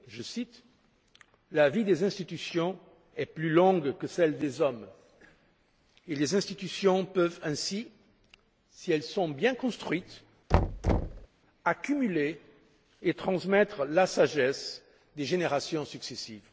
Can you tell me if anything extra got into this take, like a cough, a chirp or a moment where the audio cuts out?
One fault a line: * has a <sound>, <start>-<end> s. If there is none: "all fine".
* has a thud, 10.5-11.3 s